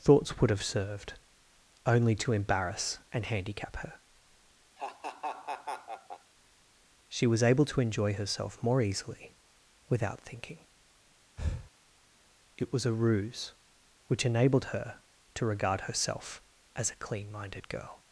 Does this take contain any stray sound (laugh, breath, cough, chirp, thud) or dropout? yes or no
yes